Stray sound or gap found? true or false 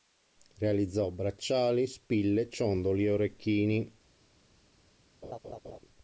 true